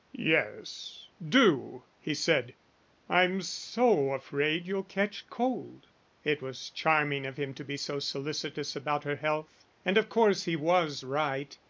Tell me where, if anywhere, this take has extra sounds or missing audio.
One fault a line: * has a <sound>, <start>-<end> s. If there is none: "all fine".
all fine